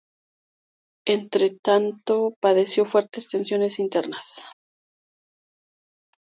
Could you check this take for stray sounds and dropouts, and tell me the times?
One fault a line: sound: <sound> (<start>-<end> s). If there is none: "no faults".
no faults